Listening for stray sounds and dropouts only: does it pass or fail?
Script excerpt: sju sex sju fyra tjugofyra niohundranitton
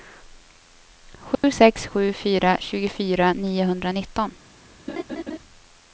fail